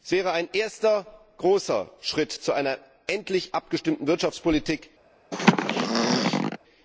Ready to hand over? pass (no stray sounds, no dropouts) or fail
fail